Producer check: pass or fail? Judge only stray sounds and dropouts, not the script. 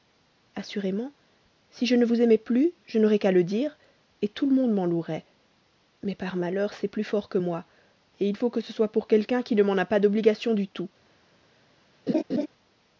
fail